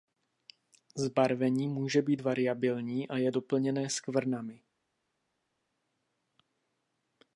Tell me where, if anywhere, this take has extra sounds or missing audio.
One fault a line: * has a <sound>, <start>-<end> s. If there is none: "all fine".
all fine